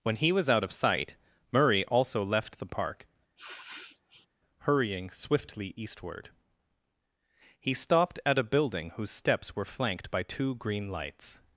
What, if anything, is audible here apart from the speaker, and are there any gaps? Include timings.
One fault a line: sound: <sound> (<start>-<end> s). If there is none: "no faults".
sound: sniff (3.4-4.3 s)